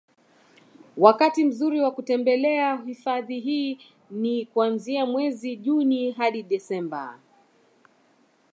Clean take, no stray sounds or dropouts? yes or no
yes